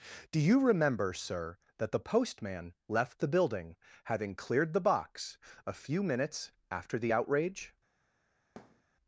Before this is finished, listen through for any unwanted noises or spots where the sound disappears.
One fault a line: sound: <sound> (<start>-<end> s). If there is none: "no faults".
sound: thud (8.6-8.8 s)